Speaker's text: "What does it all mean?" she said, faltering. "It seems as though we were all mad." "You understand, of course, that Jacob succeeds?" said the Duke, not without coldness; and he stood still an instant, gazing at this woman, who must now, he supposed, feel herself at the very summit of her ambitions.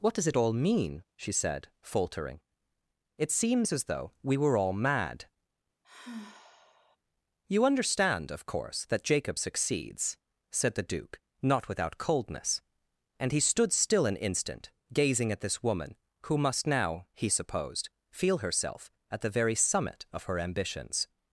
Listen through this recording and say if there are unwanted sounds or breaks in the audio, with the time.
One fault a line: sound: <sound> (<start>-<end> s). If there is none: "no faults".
sound: sigh (5.8-7.0 s)